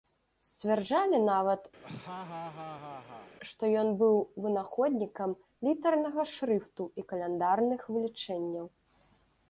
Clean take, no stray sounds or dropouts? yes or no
no